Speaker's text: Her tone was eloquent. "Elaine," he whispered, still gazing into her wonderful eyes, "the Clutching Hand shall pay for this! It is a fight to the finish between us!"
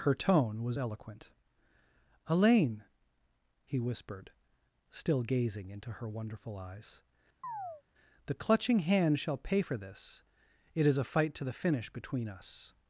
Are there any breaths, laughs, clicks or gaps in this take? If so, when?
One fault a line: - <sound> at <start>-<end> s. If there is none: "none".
- chirp at 7.4-7.8 s